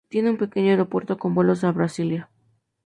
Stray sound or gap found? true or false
false